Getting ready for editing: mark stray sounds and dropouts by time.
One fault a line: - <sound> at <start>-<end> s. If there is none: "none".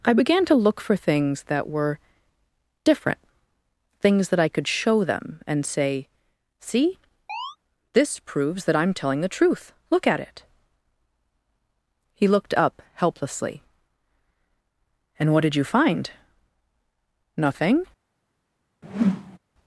- chirp at 7.3-7.6 s
- whoosh at 18.8-19.4 s